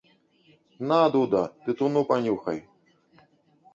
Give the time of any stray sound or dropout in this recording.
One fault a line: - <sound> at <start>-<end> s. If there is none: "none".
none